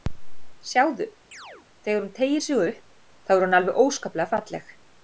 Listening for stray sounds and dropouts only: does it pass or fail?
fail